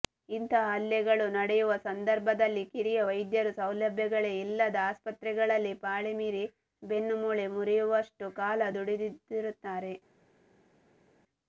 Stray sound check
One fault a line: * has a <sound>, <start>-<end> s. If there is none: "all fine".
all fine